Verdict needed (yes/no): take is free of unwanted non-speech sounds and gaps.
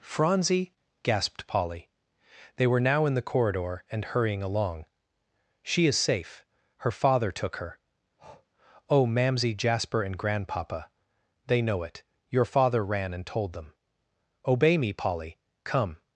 no